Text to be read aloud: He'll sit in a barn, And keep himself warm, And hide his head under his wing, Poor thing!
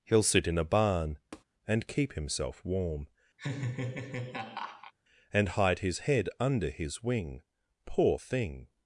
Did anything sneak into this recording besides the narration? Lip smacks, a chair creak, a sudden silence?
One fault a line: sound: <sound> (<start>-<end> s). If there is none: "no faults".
sound: tap (1.3-1.4 s)
sound: laugh (3.4-4.9 s)